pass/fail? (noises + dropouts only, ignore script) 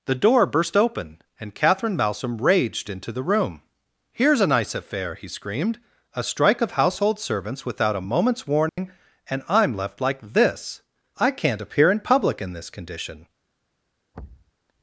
fail